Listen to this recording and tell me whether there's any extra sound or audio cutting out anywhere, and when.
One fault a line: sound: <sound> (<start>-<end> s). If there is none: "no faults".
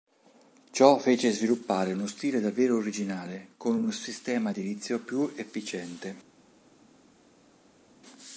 no faults